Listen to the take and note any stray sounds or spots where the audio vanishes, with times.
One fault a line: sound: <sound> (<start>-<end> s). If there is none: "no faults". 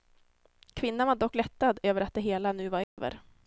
sound: dropout (2.8-3.0 s)